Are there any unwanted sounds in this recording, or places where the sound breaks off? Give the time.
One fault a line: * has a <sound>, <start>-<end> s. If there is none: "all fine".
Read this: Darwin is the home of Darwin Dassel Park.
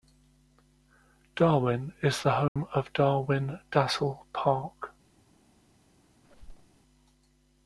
* has a dropout, 2.5-2.6 s
* has a squeak, 6.2-6.8 s